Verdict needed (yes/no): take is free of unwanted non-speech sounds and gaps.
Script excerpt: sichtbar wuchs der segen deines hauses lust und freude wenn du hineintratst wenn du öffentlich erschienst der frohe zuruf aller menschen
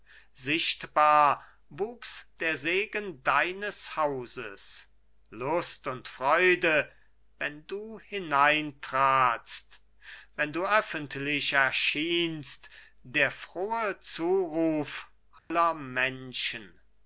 no